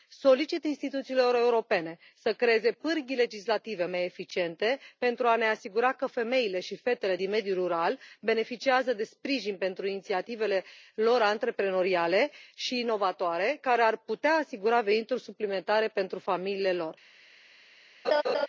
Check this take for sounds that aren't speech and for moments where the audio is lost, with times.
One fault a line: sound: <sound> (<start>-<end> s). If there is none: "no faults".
sound: laugh (18.0-18.5 s)